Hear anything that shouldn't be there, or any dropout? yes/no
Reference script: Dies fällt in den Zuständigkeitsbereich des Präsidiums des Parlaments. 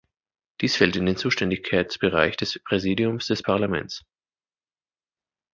no